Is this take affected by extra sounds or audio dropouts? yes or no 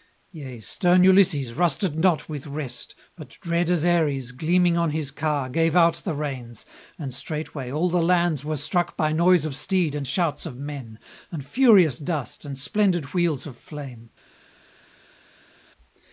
no